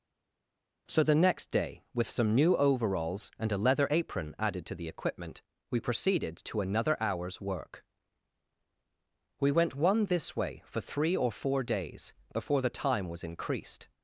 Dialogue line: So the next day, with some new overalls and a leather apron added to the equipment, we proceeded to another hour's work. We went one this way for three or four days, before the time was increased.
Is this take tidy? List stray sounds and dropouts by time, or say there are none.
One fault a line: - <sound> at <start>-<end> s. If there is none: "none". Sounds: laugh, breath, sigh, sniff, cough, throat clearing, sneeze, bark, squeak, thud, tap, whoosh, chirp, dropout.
none